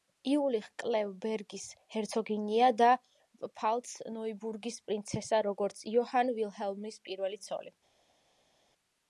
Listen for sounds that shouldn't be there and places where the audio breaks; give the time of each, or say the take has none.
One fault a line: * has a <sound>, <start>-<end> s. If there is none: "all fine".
all fine